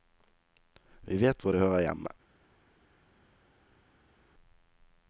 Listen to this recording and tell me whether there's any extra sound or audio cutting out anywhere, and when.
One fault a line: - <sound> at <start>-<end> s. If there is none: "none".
none